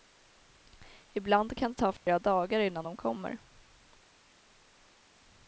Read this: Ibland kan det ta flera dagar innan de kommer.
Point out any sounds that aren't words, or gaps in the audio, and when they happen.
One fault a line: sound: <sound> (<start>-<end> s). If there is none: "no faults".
sound: dropout (2.0-2.1 s)